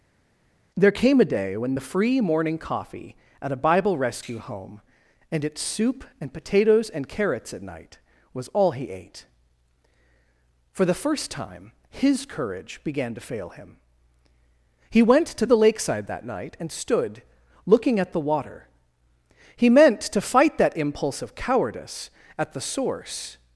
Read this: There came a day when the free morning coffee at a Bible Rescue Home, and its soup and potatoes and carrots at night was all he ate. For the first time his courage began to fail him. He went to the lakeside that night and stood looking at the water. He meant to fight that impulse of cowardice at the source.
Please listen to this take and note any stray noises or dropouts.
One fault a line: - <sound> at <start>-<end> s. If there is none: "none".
none